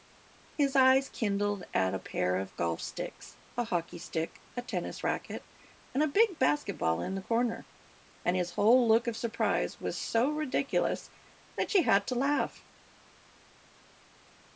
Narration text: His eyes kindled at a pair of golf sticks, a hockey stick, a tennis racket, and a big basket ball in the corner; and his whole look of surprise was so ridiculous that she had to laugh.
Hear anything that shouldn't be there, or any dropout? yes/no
no